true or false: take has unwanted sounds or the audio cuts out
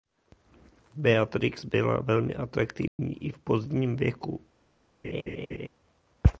true